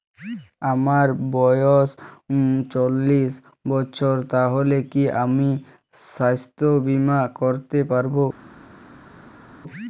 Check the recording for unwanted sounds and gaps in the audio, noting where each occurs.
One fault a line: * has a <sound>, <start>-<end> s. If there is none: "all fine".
all fine